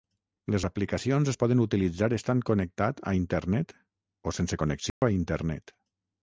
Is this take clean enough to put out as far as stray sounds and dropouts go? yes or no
no